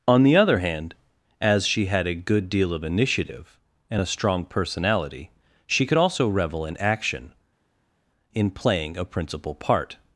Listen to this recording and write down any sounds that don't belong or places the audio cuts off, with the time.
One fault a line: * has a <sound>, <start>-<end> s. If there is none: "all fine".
all fine